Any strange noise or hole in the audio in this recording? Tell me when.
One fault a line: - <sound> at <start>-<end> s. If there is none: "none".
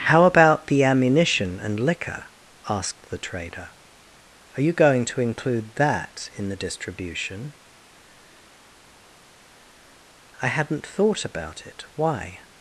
none